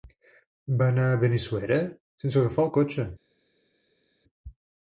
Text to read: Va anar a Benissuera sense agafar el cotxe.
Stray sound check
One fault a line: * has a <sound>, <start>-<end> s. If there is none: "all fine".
all fine